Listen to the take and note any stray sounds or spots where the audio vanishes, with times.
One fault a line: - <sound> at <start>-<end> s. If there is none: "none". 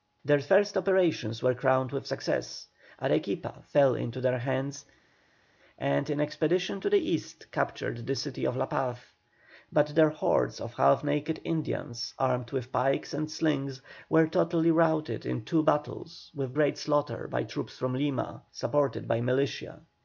none